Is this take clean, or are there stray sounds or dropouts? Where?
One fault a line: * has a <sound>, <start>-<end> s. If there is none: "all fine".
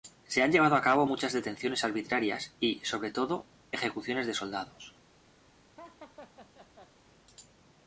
* has a laugh, 5.8-6.9 s